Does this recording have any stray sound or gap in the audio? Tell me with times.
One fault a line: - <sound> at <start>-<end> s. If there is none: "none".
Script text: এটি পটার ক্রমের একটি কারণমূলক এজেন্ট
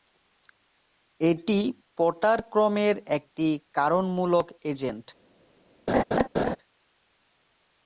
- laugh at 5.9-6.6 s